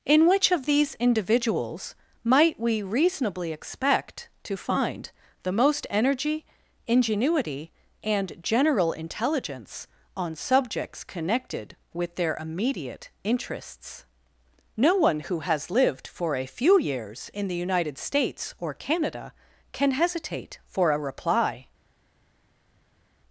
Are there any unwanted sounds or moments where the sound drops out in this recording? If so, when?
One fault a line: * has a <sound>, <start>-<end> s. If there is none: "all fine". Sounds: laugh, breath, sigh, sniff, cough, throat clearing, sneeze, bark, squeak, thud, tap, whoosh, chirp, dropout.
all fine